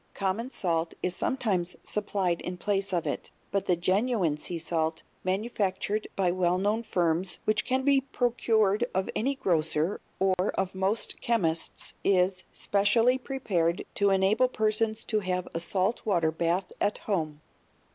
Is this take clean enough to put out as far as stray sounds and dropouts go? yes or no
no